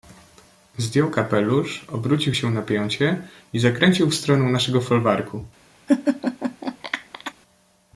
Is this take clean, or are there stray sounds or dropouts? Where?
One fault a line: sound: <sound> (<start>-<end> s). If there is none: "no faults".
sound: laugh (5.9-7.3 s)